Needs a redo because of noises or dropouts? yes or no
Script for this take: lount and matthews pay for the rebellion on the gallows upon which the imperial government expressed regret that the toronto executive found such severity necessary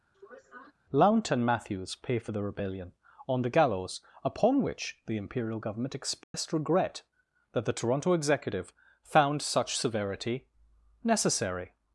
yes